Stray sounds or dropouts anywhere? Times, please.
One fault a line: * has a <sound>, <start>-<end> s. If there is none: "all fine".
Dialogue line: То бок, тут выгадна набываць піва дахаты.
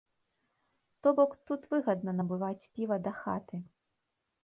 all fine